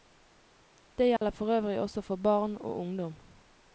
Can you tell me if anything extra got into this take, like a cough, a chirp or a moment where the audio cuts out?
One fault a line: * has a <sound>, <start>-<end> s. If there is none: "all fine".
* has a dropout, 1.2-1.2 s